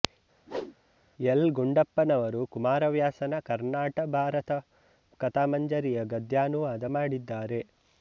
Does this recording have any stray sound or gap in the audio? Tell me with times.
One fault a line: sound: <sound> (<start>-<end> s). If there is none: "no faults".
sound: whoosh (0.5-0.8 s)